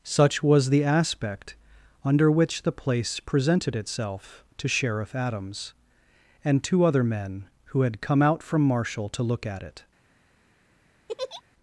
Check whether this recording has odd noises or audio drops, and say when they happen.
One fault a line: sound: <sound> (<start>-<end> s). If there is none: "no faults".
sound: laugh (11.1-11.4 s)